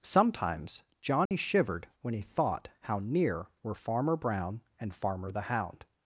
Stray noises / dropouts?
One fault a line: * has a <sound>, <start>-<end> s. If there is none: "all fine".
* has a dropout, 1.3-1.3 s